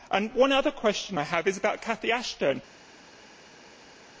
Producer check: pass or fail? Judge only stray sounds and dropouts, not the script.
pass